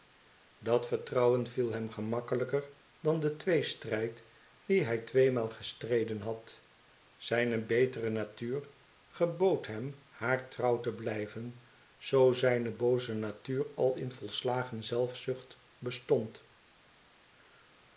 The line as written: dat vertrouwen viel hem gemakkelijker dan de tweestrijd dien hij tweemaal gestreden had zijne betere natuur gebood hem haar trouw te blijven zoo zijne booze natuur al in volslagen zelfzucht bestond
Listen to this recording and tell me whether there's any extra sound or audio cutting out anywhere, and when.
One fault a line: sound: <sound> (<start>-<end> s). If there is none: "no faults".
no faults